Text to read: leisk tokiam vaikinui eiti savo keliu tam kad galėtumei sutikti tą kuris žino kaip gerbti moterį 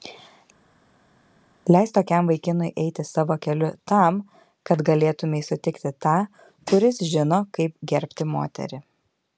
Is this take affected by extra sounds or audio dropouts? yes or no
no